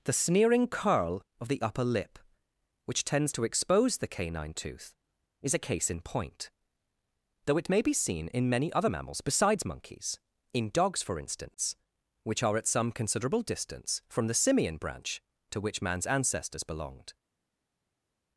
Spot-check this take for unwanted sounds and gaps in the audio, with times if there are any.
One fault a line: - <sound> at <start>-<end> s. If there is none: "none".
none